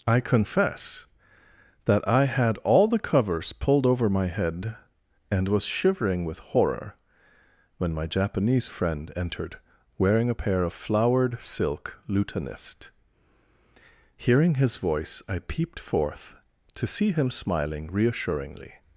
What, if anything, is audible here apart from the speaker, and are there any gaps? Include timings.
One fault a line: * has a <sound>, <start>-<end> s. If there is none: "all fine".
all fine